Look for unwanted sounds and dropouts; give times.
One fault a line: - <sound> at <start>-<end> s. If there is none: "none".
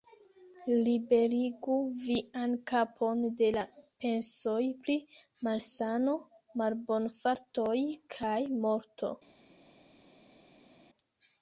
none